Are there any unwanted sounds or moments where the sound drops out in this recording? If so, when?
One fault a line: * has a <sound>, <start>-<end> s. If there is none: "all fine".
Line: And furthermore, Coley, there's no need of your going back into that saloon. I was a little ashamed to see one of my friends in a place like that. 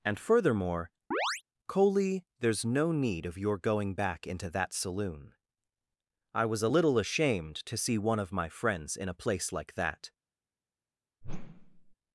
* has a chirp, 1.1-1.4 s
* has a whoosh, 11.2-12.0 s